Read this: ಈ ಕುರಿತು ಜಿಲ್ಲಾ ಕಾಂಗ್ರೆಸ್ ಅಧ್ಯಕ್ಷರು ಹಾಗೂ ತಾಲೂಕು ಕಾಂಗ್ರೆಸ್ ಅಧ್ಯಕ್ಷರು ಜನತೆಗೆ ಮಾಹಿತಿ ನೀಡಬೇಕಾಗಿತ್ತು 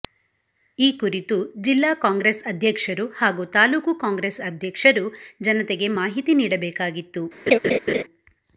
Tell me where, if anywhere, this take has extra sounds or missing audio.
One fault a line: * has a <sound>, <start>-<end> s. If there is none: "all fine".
* has a laugh, 7.5-8.0 s